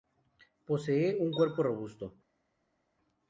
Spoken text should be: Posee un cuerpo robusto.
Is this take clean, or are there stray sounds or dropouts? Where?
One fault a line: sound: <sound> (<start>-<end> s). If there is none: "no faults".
no faults